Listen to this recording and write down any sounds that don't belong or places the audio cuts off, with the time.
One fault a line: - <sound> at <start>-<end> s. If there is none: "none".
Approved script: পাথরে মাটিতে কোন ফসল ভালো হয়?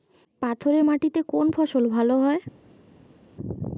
none